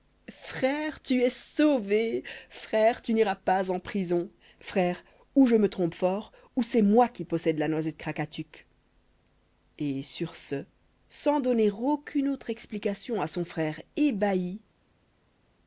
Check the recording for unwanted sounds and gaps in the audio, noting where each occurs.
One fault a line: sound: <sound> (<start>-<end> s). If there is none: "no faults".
no faults